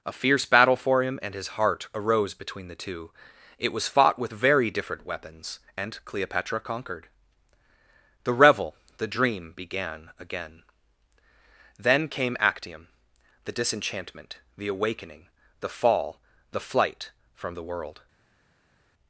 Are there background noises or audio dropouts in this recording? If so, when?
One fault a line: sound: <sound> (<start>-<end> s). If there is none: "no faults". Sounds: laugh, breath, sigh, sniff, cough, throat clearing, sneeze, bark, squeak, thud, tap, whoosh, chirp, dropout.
no faults